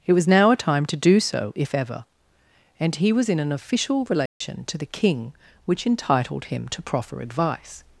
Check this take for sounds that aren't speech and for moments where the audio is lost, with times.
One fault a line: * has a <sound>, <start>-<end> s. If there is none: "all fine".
* has a dropout, 4.3-4.4 s